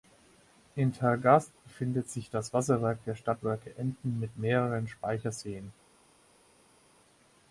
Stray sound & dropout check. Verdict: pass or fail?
pass